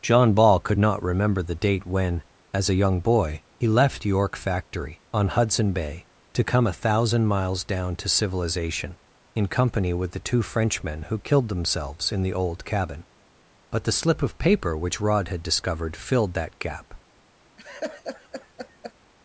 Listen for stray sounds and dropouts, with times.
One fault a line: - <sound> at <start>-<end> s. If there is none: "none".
- laugh at 17.6-18.9 s